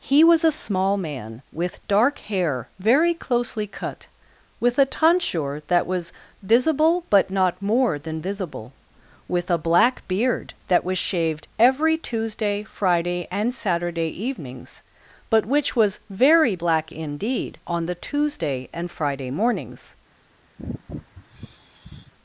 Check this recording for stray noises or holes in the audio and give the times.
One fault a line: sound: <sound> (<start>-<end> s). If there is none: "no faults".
sound: sigh (20.6-22.1 s)